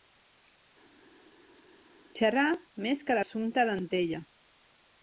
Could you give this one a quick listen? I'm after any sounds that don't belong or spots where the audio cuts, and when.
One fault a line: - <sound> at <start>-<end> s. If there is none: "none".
none